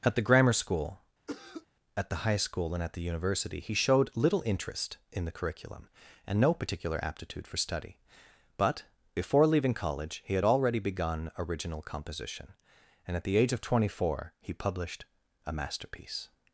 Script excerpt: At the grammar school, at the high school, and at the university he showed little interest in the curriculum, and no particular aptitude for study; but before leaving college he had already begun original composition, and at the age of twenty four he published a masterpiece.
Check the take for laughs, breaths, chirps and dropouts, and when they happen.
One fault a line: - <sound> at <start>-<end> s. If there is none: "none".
- cough at 1.3-1.7 s